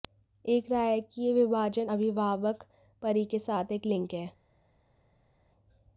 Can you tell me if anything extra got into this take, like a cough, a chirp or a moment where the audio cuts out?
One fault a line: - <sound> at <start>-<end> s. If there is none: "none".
none